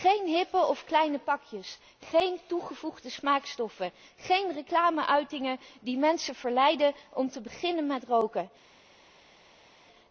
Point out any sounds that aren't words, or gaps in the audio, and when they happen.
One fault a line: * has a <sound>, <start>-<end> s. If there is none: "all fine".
all fine